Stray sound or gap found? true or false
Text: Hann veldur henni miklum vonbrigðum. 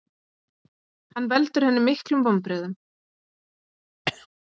true